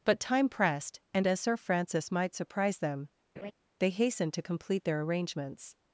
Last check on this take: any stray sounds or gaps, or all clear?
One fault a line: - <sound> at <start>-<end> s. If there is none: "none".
- laugh at 3.4-3.5 s